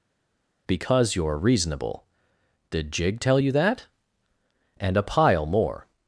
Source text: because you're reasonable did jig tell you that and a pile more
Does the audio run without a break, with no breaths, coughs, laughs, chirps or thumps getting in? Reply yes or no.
yes